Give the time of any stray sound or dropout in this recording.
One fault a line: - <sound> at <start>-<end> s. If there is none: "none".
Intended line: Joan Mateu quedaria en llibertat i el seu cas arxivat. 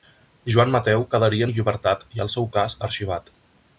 none